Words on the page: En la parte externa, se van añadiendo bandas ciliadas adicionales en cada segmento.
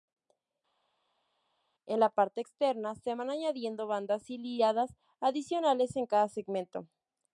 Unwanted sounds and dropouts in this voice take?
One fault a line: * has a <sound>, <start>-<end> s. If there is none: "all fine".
all fine